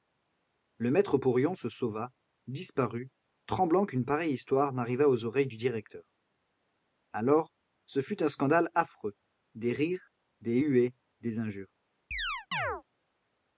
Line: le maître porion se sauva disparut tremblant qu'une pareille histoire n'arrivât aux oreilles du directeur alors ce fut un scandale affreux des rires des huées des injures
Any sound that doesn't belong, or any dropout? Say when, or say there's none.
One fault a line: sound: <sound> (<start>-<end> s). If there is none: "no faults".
sound: chirp (12.1-12.8 s)